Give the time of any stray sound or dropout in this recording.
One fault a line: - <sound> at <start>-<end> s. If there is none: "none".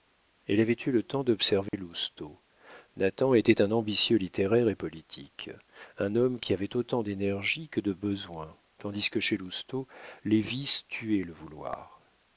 - dropout at 1.7-1.7 s